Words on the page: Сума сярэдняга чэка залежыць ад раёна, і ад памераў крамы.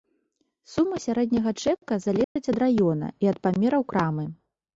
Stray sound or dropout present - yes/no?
yes